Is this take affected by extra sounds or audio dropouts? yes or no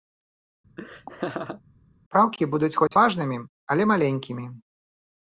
yes